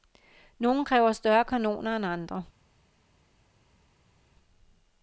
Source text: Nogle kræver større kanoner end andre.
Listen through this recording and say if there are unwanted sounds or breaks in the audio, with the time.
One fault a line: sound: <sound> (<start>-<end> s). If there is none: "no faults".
no faults